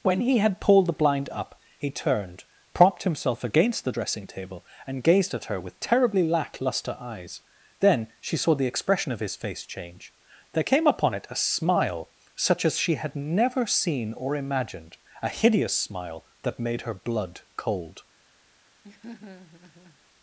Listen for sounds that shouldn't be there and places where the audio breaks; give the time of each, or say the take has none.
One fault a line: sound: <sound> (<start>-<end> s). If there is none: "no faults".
sound: laugh (18.8-20.0 s)